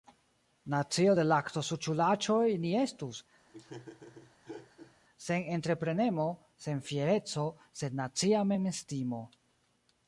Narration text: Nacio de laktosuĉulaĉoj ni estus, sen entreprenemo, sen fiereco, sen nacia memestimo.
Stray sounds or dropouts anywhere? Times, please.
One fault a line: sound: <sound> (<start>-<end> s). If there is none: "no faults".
sound: laugh (3.5-4.9 s)